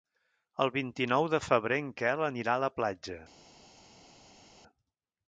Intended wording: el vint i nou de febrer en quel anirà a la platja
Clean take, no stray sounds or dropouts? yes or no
yes